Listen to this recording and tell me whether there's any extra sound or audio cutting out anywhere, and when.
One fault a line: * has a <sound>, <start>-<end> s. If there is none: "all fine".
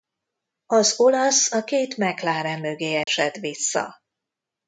* has a dropout, 3.0-3.1 s